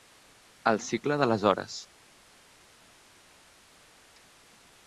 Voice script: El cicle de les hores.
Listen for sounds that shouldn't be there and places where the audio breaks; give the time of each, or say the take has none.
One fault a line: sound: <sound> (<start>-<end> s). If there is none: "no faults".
no faults